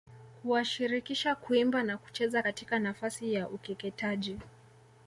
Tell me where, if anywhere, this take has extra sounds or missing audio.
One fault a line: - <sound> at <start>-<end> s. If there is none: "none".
none